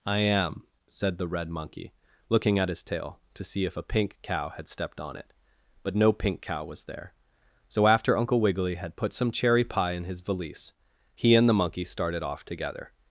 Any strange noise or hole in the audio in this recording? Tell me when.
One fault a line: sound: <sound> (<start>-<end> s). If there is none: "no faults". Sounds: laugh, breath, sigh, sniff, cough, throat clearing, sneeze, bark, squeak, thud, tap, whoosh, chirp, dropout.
no faults